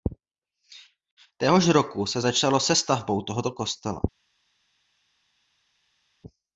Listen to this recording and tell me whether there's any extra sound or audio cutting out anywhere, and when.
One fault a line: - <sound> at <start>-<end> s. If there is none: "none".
none